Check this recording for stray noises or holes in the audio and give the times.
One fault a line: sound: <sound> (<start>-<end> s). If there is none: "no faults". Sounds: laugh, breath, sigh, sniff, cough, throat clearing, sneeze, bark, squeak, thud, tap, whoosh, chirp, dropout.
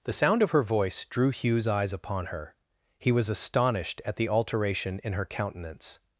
no faults